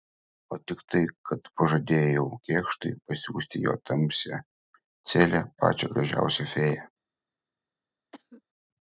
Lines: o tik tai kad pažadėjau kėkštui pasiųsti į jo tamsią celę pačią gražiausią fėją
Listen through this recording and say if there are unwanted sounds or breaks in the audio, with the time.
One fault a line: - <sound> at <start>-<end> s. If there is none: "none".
- cough at 8.1-8.4 s